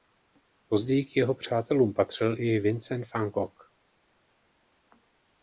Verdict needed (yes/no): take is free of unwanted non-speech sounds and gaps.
yes